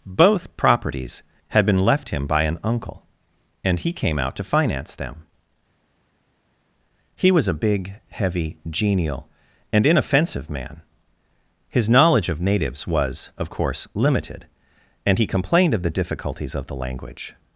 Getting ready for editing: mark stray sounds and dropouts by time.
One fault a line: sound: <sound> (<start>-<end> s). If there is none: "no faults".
no faults